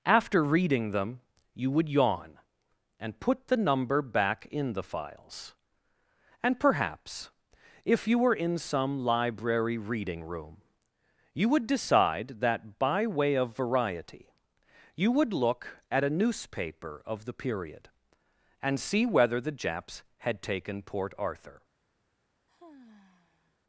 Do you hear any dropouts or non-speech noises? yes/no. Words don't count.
yes